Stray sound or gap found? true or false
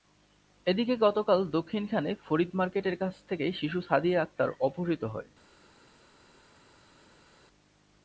false